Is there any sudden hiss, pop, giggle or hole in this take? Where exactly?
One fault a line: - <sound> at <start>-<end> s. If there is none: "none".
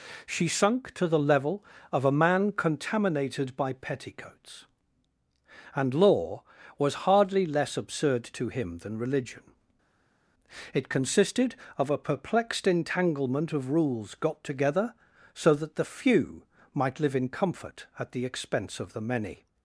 none